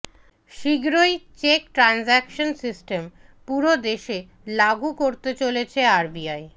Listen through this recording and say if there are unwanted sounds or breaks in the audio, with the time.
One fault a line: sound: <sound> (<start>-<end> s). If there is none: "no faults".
no faults